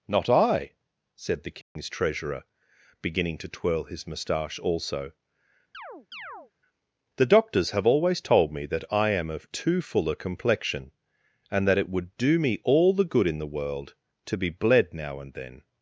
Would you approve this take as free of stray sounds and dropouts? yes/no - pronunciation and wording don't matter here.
no